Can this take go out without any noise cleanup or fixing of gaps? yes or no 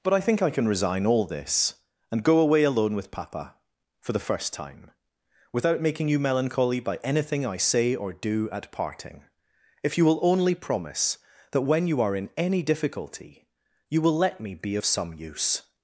yes